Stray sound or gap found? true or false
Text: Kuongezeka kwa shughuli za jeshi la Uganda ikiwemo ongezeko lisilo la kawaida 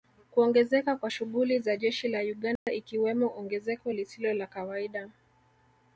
true